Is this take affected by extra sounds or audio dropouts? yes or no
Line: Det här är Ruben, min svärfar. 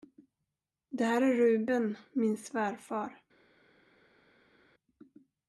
no